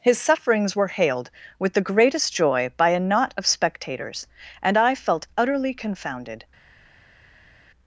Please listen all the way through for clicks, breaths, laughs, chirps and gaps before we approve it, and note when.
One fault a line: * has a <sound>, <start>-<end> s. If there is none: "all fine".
all fine